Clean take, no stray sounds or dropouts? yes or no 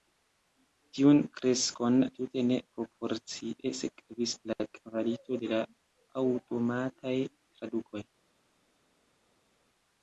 yes